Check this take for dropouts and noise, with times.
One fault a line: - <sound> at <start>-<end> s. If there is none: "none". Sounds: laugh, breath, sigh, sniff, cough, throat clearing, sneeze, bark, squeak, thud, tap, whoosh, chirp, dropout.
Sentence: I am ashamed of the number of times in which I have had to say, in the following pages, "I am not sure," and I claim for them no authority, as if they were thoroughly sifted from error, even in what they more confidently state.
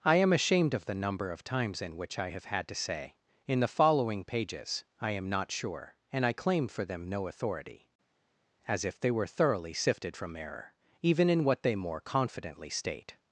none